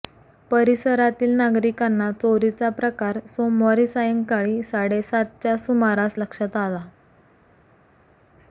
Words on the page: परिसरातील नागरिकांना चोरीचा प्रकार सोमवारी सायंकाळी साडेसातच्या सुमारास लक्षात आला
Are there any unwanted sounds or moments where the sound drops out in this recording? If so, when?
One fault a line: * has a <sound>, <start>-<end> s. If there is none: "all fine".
all fine